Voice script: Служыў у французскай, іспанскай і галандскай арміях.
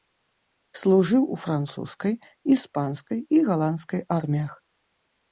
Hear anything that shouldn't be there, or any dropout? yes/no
no